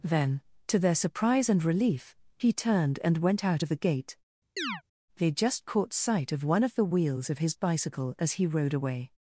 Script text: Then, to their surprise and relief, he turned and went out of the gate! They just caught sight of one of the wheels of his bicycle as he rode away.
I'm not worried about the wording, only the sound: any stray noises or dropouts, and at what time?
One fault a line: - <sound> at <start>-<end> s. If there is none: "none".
- chirp at 4.6-4.8 s